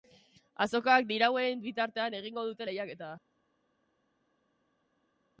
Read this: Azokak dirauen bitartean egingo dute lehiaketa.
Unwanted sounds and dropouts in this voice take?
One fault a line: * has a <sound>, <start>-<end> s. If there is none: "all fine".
all fine